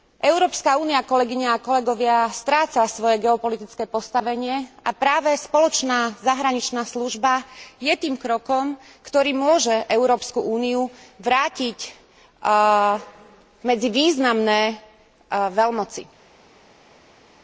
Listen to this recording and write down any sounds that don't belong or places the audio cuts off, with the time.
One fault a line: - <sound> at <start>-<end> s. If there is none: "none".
none